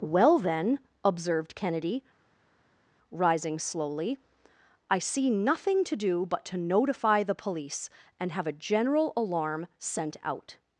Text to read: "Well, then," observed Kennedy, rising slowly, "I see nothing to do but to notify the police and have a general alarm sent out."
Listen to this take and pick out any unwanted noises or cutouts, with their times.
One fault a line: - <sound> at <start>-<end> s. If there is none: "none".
none